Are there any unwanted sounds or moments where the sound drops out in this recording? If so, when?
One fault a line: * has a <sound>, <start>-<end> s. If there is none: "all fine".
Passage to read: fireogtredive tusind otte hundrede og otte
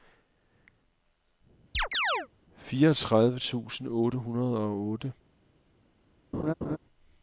* has a chirp, 1.7-2.3 s
* has a laugh, 6.3-6.8 s